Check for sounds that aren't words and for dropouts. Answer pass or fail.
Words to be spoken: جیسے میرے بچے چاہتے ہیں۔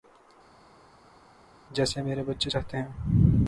pass